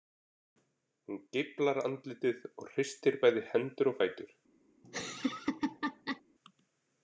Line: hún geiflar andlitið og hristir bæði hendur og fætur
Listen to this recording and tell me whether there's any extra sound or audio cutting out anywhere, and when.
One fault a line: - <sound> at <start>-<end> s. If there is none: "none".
- laugh at 4.8-6.2 s